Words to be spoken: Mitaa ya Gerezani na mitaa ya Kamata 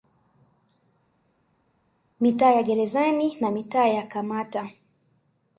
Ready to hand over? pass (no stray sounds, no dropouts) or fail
pass